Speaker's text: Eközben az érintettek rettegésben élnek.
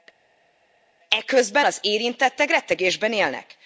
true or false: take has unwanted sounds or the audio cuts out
false